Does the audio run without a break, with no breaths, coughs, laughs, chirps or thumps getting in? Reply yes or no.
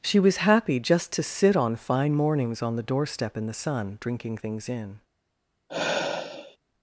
no